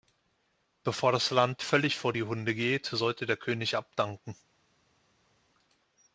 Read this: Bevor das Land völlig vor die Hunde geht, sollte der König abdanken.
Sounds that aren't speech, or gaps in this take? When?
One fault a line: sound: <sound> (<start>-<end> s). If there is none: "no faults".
no faults